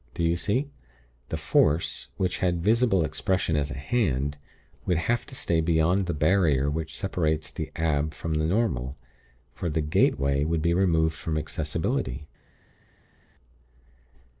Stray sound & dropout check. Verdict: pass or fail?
pass